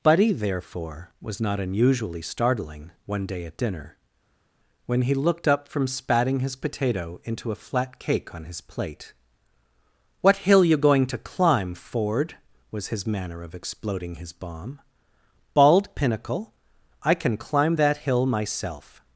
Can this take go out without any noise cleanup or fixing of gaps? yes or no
yes